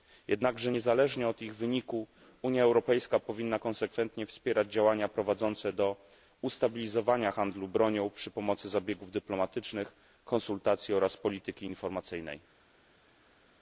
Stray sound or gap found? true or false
false